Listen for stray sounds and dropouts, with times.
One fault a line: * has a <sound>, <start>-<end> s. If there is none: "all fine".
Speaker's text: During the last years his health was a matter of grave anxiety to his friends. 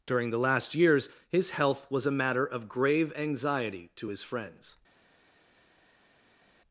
all fine